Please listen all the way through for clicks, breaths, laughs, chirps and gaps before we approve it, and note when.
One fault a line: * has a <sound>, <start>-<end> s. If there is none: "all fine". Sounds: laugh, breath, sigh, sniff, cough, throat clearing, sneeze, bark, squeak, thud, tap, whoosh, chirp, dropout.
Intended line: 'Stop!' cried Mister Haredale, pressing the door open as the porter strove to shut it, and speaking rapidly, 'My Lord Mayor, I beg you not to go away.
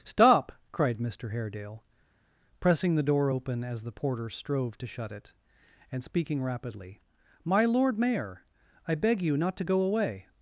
all fine